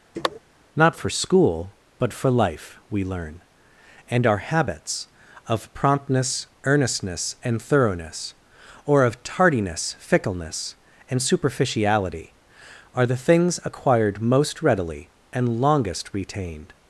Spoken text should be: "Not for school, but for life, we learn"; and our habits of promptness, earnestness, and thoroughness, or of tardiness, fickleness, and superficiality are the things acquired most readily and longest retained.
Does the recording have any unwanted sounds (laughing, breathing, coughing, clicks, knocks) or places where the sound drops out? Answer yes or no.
yes